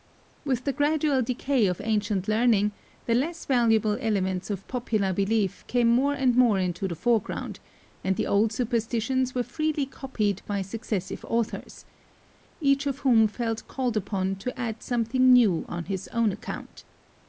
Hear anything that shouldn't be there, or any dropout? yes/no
no